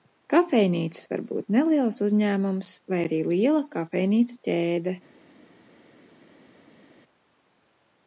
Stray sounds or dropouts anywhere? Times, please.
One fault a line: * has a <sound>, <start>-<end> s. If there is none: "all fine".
all fine